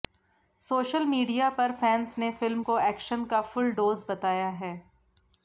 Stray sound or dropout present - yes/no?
no